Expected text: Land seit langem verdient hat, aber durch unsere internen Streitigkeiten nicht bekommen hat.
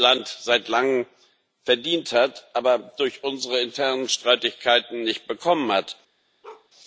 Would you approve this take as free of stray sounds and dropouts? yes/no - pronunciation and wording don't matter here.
no